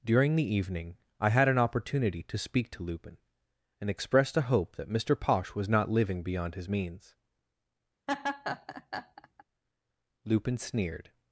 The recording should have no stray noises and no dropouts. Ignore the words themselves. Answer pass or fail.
fail